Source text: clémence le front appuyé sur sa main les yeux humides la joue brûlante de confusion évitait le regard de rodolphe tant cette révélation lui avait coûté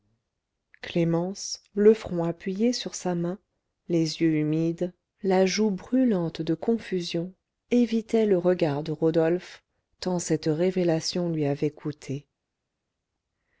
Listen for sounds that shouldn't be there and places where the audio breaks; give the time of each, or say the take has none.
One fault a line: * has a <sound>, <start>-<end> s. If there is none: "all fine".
all fine